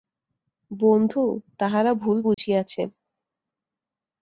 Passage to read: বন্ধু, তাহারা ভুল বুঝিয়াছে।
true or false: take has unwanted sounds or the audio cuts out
true